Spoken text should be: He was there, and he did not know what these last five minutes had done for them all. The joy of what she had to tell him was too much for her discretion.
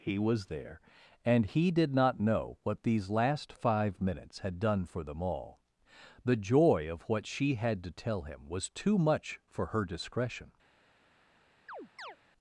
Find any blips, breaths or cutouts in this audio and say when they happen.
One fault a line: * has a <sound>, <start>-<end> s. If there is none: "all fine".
* has a chirp, 11.7-12.2 s